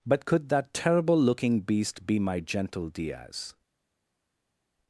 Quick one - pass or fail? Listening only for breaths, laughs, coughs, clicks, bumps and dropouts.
pass